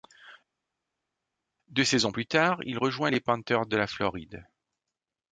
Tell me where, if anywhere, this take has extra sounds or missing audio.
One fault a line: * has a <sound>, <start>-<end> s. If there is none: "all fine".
all fine